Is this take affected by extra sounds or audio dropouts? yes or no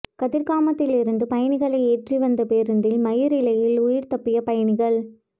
no